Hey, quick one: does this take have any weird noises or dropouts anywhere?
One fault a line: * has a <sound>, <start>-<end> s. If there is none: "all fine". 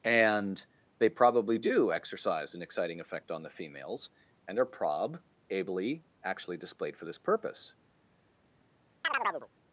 * has a chirp, 9.0-9.5 s